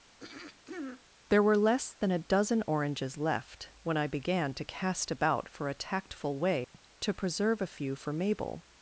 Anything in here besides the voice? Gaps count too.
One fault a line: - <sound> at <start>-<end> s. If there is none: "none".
- throat clearing at 0.2-1.0 s
- dropout at 6.6-6.7 s